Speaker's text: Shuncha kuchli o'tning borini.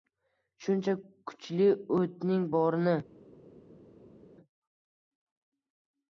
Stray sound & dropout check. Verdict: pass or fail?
pass